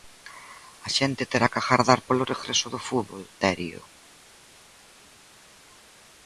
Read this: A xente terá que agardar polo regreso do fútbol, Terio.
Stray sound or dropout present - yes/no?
no